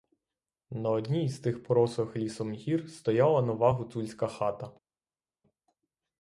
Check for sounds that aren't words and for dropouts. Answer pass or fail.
pass